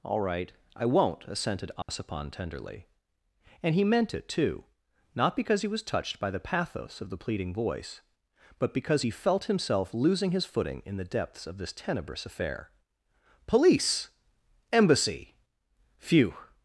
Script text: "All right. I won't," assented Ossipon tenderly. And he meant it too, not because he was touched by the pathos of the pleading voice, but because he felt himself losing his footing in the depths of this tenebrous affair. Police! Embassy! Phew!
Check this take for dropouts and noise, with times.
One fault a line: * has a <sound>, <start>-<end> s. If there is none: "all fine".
* has a dropout, 1.8-1.9 s